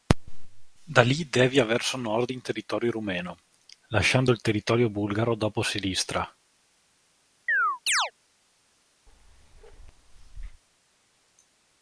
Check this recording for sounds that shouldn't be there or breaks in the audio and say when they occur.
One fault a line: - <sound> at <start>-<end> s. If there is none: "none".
- chirp at 7.5-8.1 s
- bark at 9.1-10.6 s